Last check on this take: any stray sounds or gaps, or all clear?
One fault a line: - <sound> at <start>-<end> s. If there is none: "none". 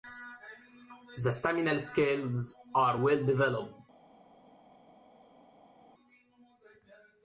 none